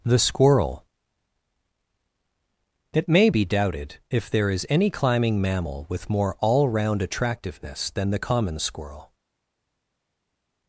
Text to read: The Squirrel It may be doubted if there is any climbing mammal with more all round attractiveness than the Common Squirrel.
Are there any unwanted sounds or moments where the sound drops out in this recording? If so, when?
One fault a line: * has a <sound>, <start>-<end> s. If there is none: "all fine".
all fine